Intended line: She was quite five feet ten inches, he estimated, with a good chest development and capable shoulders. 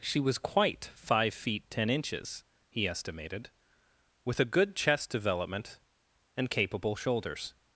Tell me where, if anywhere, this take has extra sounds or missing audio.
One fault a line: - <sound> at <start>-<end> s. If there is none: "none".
none